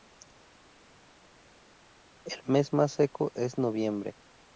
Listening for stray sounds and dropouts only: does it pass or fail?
pass